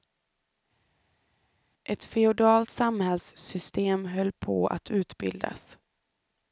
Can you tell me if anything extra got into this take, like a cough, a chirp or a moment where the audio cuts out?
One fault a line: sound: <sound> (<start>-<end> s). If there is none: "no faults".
no faults